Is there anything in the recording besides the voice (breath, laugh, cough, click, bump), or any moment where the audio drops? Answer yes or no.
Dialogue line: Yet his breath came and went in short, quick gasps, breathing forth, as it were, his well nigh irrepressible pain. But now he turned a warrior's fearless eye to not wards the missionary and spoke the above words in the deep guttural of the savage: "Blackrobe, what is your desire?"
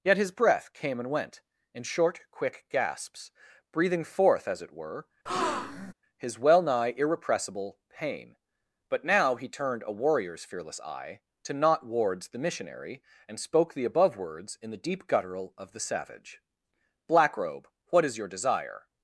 yes